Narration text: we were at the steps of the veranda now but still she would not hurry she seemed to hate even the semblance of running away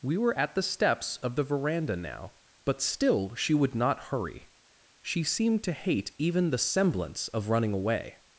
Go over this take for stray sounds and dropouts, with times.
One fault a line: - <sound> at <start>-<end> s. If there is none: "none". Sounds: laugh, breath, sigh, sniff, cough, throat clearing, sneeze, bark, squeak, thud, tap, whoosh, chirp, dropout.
none